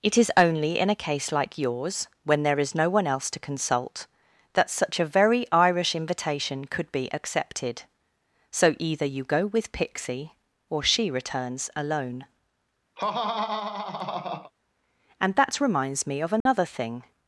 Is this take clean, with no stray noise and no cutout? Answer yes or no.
no